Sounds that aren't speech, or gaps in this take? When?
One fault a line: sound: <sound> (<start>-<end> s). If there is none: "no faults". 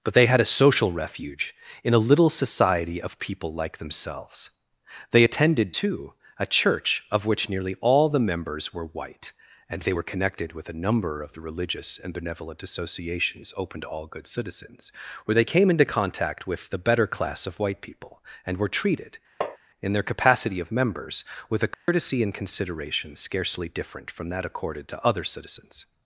sound: tap (19.4-19.6 s)
sound: dropout (21.7-21.9 s)